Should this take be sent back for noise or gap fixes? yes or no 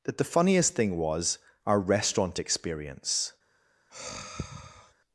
yes